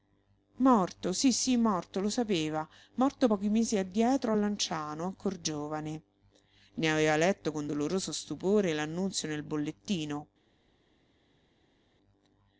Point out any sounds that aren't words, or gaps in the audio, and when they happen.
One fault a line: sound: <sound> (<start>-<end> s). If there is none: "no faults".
no faults